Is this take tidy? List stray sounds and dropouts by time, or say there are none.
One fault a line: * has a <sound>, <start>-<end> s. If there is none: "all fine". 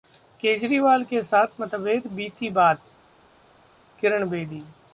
all fine